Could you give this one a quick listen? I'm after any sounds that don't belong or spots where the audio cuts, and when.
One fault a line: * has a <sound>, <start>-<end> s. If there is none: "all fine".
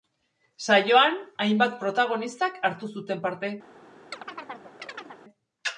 * has a chirp, 4.1-5.2 s